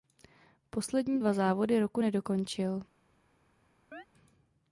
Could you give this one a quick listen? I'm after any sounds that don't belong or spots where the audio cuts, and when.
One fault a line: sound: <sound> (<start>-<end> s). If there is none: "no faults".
sound: chirp (3.9-4.1 s)